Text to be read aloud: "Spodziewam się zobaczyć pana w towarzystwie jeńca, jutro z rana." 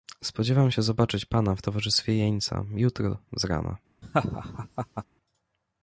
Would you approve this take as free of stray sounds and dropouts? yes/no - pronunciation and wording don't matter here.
no